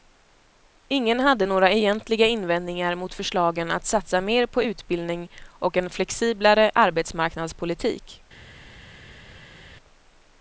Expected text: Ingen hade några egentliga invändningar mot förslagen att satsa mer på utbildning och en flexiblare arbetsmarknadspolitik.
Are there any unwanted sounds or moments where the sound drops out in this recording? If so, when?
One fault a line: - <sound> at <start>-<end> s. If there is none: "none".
none